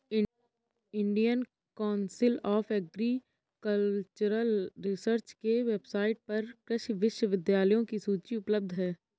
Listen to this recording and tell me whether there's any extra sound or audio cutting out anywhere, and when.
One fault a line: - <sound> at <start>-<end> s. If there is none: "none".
none